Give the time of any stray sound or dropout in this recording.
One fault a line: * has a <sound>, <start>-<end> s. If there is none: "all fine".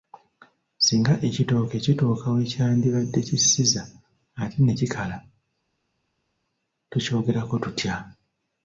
all fine